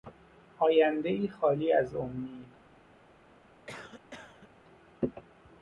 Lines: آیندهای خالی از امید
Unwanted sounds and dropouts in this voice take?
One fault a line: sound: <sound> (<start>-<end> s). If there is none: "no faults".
sound: cough (3.7-4.5 s)